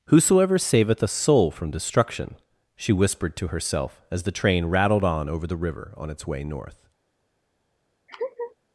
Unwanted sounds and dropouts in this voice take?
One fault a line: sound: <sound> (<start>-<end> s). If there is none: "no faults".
sound: laugh (8.1-8.6 s)